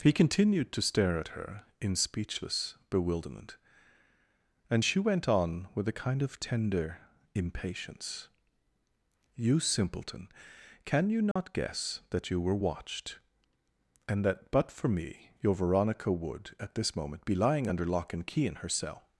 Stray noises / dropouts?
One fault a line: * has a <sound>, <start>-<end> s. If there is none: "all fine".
* has a dropout, 11.3-11.4 s